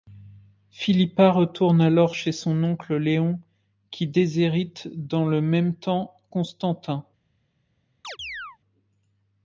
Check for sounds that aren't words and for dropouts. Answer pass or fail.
fail